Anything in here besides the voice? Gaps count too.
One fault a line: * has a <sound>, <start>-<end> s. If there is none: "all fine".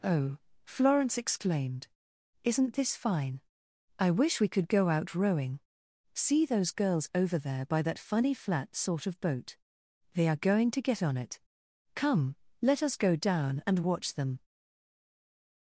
all fine